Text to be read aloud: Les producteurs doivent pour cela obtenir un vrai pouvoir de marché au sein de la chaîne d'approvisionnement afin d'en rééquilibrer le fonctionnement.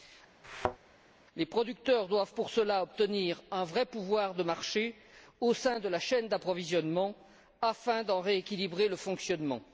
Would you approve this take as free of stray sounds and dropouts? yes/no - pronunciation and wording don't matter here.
no